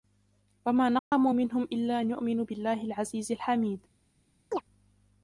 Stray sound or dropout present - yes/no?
yes